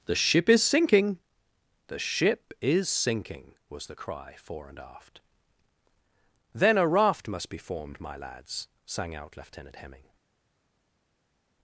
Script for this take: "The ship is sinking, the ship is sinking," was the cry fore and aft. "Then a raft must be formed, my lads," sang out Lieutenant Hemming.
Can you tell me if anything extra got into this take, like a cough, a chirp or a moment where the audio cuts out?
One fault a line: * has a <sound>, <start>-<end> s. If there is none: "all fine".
all fine